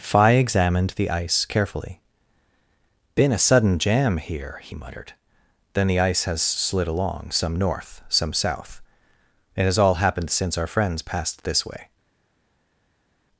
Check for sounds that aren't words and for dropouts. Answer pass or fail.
pass